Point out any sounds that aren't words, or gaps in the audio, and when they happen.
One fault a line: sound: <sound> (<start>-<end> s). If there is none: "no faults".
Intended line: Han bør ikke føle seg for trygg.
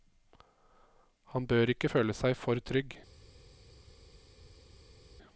no faults